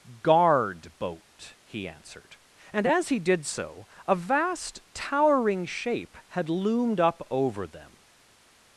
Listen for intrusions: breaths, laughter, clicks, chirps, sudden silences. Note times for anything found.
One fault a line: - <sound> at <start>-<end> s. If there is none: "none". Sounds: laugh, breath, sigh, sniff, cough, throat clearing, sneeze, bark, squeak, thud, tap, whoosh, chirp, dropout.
none